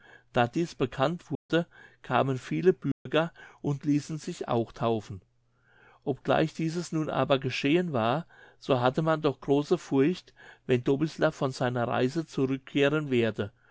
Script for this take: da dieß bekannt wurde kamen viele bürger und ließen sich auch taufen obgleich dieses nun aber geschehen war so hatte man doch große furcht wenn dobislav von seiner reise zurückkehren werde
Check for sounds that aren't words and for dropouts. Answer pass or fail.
fail